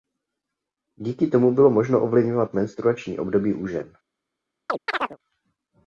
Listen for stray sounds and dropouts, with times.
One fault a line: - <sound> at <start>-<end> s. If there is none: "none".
- chirp at 4.7-5.2 s